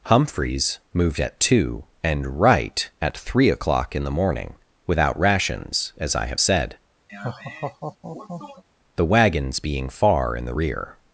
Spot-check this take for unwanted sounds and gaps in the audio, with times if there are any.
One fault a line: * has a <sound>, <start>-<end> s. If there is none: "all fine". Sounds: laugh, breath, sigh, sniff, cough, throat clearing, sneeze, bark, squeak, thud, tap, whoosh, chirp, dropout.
* has a laugh, 7.1-8.6 s